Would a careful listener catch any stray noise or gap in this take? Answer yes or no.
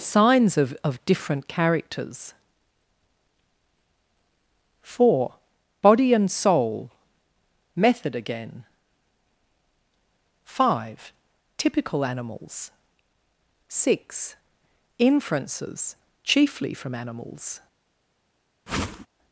yes